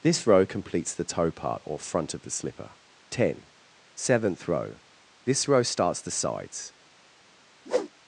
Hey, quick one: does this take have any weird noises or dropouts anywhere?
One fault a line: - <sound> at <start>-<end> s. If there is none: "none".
- whoosh at 7.6-7.9 s